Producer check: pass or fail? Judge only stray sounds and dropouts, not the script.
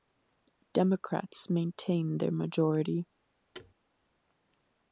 fail